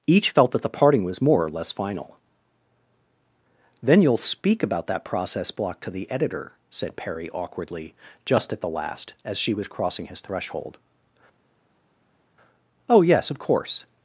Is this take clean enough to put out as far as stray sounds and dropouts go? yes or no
yes